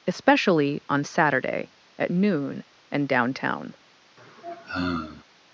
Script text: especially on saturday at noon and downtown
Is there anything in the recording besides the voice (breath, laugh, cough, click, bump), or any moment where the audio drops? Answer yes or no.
yes